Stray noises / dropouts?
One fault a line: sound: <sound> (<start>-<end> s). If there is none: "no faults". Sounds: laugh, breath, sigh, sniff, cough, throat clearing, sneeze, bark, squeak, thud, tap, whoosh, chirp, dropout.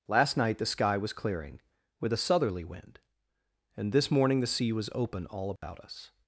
sound: dropout (5.6-5.6 s)